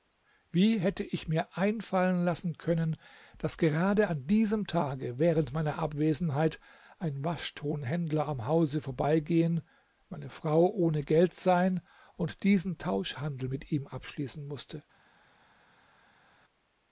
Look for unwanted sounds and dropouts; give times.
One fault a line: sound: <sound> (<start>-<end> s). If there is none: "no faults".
no faults